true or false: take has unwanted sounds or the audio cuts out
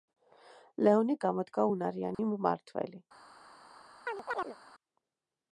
true